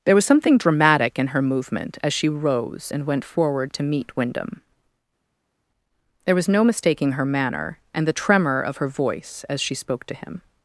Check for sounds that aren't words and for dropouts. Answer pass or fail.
pass